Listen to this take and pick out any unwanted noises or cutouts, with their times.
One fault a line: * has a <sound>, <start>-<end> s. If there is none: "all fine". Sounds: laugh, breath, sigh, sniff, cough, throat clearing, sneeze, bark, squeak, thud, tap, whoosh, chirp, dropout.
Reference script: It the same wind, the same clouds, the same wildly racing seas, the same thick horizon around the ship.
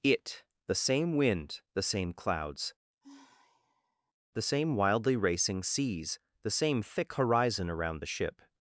* has a sigh, 3.0-4.1 s